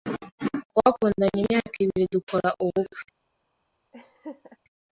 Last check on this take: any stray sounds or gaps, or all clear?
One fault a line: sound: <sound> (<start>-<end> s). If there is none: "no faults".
sound: laugh (3.9-4.6 s)